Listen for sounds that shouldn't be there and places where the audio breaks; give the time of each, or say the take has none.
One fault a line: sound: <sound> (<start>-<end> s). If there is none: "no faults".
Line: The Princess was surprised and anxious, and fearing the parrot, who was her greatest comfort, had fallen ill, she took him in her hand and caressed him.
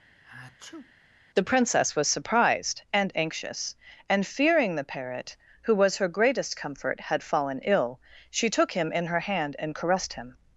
sound: sneeze (0.2-0.9 s)